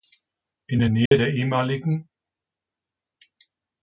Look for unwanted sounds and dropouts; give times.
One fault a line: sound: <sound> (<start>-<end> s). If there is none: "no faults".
sound: dropout (1.1-1.1 s)